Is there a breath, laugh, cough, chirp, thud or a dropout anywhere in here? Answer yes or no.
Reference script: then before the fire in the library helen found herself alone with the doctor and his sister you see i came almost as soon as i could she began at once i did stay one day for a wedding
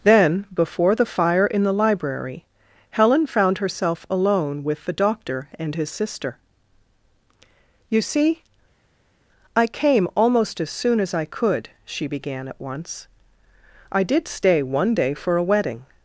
no